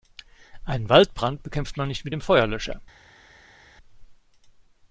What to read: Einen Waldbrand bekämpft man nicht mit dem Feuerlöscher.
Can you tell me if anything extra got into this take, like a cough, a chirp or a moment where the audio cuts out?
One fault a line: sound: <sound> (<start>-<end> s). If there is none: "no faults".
no faults